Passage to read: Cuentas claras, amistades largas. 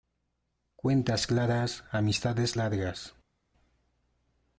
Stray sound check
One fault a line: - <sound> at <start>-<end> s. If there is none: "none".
none